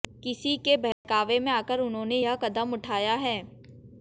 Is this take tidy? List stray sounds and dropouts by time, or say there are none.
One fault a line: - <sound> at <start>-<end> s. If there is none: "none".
- dropout at 0.9-1.0 s